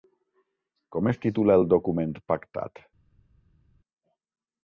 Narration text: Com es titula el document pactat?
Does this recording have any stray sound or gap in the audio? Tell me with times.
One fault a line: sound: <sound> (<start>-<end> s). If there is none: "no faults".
no faults